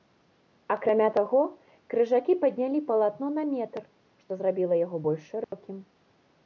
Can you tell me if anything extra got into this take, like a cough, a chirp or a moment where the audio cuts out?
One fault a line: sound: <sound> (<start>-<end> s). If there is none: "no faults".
sound: dropout (5.4-5.5 s)